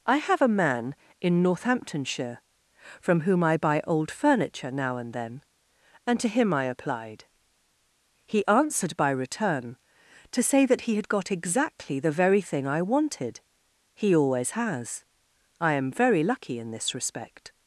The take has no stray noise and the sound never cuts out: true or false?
true